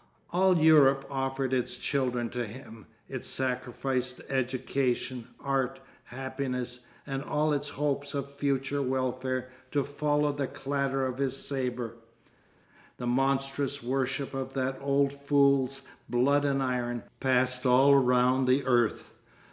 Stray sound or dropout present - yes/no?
no